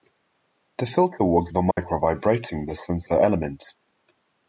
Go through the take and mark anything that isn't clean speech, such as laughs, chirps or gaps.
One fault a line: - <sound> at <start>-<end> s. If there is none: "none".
- dropout at 1.7-1.8 s